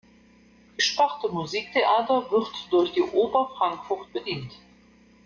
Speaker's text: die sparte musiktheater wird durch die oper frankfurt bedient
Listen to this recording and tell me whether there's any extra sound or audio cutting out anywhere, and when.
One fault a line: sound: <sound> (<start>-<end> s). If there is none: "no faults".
no faults